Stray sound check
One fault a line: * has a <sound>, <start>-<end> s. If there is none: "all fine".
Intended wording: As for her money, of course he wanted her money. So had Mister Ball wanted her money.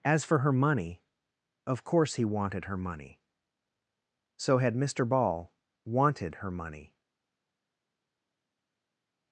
all fine